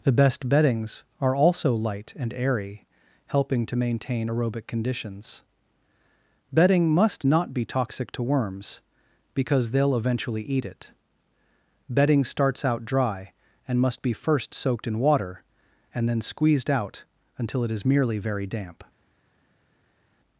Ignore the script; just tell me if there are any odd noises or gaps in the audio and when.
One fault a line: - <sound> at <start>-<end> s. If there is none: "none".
none